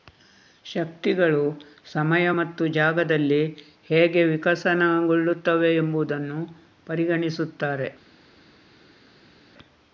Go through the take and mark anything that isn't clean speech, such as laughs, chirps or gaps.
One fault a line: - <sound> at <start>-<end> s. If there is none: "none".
none